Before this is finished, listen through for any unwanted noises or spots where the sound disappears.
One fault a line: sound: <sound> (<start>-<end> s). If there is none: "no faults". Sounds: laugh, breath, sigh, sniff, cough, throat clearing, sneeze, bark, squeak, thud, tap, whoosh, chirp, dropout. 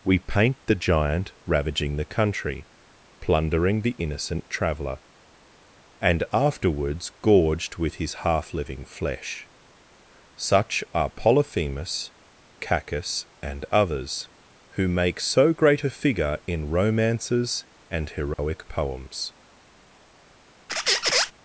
sound: dropout (18.3-18.4 s)
sound: squeak (20.7-21.3 s)